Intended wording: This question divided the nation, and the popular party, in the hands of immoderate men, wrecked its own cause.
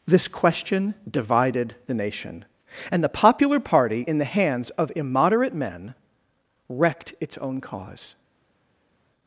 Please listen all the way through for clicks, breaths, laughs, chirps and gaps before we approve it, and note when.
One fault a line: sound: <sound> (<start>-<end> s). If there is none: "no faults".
no faults